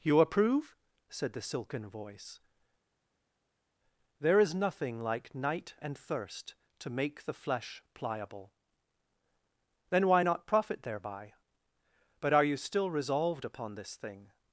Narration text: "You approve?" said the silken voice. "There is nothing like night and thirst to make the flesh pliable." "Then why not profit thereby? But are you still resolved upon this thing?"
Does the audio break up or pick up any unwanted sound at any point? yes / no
no